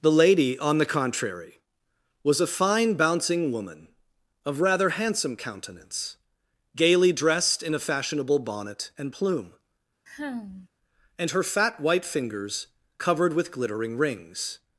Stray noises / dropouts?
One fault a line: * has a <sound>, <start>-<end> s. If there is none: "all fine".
* has a sigh, 10.1-10.7 s